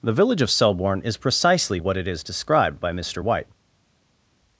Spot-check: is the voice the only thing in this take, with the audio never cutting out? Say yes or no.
yes